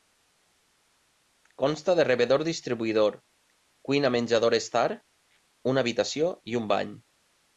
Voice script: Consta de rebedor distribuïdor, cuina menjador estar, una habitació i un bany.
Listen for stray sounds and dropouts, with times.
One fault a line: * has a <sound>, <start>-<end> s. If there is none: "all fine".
all fine